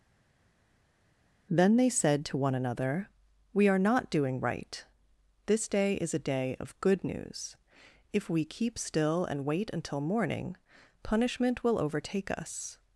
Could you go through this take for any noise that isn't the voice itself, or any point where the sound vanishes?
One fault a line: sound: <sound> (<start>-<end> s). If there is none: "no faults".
no faults